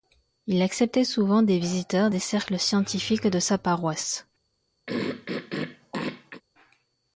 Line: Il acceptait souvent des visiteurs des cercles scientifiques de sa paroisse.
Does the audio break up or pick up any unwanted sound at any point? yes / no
yes